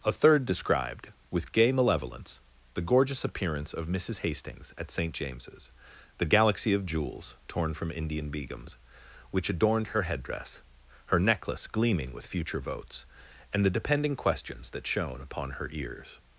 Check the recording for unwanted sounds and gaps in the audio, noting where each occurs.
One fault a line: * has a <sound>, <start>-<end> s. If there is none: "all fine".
all fine